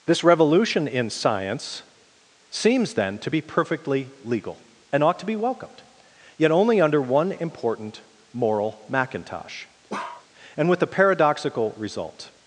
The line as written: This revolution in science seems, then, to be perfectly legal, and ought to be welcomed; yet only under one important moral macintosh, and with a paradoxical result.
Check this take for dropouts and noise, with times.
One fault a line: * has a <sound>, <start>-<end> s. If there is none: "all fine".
* has a bark, 9.9-10.3 s